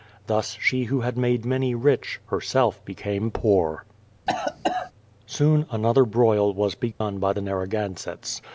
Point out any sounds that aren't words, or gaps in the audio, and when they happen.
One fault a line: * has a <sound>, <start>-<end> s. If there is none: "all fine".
* has a cough, 4.3-4.9 s
* has a dropout, 6.9-7.0 s